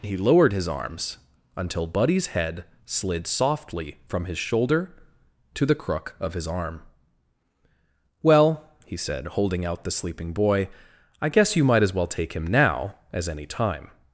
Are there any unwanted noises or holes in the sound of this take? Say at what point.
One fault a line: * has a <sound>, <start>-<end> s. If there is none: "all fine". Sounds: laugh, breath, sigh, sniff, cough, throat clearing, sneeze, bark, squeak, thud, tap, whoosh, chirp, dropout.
all fine